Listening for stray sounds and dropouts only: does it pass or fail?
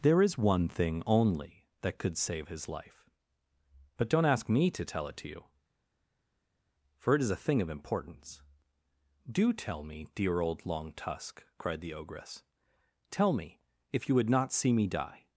pass